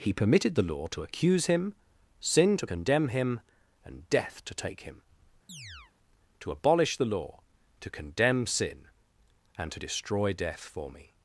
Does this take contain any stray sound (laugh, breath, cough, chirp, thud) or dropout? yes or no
yes